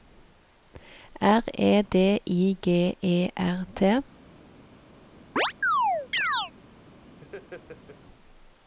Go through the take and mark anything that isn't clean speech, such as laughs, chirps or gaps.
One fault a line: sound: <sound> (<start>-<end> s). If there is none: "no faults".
sound: chirp (5.4-6.5 s)
sound: laugh (7.2-8.0 s)